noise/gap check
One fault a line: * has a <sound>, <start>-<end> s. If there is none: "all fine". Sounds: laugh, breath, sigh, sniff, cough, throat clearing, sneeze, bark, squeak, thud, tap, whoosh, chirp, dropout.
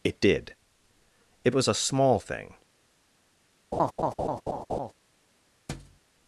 * has a laugh, 3.7-4.9 s
* has a thud, 5.7-6.0 s